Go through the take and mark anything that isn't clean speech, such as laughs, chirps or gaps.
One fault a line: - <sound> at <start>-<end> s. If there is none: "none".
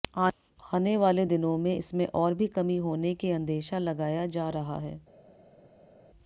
none